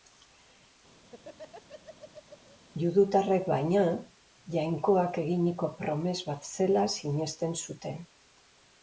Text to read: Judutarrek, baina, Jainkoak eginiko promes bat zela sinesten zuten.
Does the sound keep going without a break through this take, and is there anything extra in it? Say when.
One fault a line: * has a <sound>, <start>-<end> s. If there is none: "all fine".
* has a laugh, 1.0-2.6 s